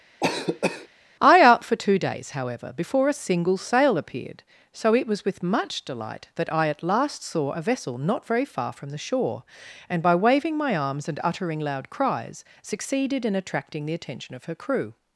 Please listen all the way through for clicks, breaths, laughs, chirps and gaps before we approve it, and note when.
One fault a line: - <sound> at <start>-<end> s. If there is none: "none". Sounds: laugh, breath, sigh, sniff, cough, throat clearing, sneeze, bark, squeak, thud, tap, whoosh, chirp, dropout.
- cough at 0.2-0.9 s